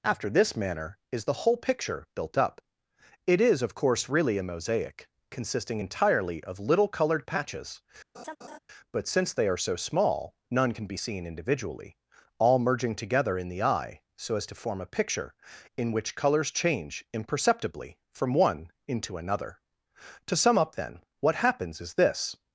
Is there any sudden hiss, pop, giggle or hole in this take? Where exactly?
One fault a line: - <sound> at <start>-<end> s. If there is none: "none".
- laugh at 8.1-8.6 s